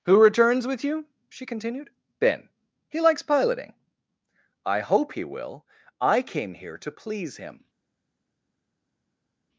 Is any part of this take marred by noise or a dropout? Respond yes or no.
no